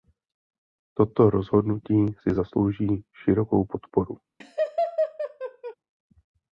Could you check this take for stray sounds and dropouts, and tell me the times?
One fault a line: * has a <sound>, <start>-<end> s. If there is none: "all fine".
* has a laugh, 4.4-5.8 s